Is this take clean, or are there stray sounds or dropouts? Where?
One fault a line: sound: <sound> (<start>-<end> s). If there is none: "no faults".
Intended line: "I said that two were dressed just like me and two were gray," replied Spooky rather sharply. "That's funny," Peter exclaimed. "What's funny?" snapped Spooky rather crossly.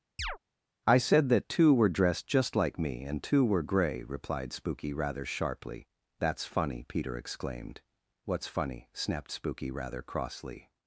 sound: chirp (0.2-0.4 s)